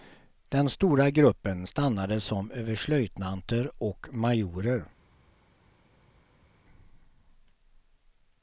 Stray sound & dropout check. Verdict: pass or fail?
pass